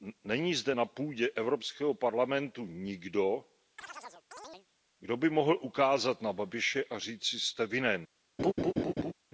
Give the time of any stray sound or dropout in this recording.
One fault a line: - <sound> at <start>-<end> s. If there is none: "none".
- chirp at 3.8-4.7 s
- laugh at 8.4-9.1 s